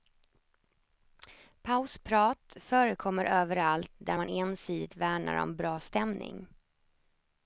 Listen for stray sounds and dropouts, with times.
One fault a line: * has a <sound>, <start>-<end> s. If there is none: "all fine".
all fine